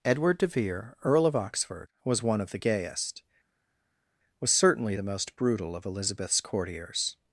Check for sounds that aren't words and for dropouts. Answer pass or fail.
pass